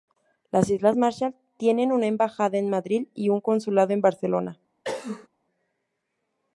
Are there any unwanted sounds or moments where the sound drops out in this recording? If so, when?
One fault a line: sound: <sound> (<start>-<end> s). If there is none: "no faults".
sound: cough (4.8-5.3 s)